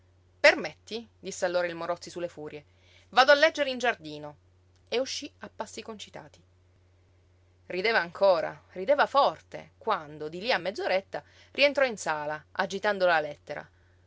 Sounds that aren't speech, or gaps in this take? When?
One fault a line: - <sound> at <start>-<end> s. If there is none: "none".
none